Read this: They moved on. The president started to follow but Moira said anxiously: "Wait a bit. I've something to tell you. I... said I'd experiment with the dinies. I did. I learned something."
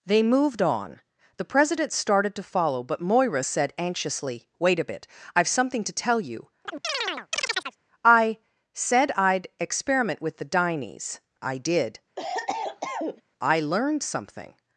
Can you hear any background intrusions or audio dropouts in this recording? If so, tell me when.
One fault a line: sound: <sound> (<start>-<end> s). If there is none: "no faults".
sound: chirp (6.6-7.8 s)
sound: cough (12.2-13.2 s)